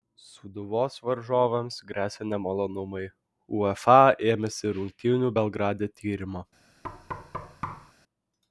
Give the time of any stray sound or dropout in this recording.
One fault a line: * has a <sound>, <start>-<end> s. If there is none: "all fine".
* has a thud, 6.8-7.9 s